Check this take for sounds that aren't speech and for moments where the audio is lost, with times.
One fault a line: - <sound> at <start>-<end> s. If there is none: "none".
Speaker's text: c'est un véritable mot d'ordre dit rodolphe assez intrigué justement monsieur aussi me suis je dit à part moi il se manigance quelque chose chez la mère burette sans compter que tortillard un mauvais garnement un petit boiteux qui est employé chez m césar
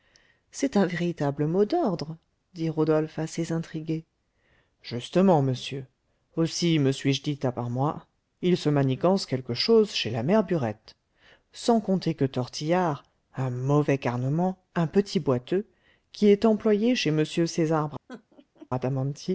- laugh at 18.1-18.7 s